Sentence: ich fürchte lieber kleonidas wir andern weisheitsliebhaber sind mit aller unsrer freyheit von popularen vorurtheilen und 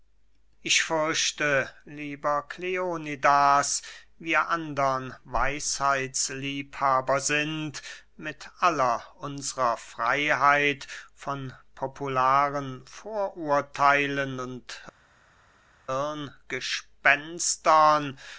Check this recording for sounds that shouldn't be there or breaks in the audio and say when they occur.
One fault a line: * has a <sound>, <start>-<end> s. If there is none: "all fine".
all fine